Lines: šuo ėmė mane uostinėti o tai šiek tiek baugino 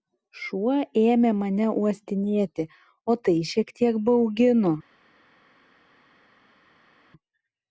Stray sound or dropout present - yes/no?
no